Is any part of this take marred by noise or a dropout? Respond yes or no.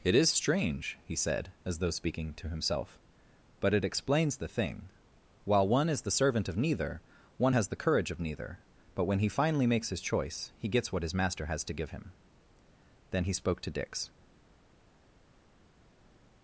no